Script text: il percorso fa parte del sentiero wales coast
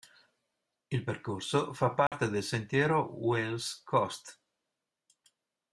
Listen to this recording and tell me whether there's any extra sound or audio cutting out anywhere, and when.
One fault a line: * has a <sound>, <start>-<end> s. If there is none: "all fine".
* has a dropout, 2.1-2.1 s